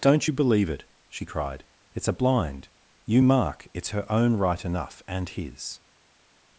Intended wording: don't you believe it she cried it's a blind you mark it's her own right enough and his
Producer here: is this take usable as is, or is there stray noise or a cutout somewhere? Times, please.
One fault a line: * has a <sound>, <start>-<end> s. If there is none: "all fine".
all fine